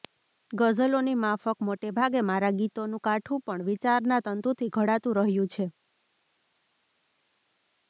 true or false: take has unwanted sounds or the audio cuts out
false